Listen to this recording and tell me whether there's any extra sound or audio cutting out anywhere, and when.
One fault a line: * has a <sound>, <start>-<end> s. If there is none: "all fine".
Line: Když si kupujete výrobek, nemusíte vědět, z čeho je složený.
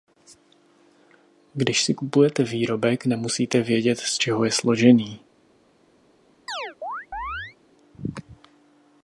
* has a chirp, 6.5-7.6 s